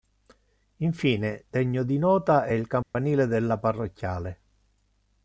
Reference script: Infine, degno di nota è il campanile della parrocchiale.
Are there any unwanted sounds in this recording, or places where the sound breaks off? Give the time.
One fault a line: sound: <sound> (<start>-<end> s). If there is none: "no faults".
sound: dropout (2.8-3.0 s)